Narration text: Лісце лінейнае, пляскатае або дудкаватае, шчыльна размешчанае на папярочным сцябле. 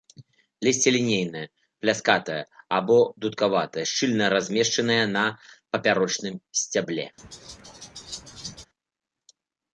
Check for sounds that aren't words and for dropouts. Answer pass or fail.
fail